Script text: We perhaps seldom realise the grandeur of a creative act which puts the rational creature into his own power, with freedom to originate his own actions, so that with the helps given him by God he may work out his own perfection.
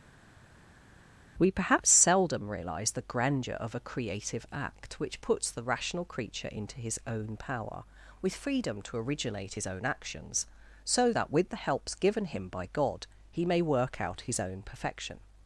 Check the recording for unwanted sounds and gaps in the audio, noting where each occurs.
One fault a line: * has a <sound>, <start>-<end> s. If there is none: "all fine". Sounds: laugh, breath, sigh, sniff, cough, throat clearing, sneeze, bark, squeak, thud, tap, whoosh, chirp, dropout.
all fine